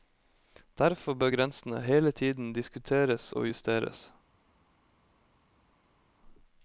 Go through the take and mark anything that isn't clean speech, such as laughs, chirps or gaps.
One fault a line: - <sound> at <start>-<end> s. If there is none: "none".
none